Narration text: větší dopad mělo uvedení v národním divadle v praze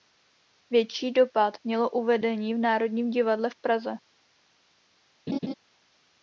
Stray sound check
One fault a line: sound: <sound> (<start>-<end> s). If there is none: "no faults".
sound: laugh (5.3-5.5 s)